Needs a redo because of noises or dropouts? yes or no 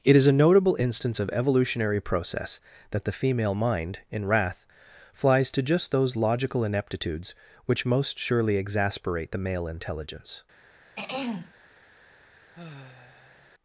yes